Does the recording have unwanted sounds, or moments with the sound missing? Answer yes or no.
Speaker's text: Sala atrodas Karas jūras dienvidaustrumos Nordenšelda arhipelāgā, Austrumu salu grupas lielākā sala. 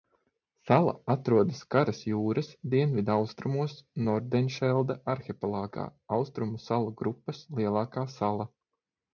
no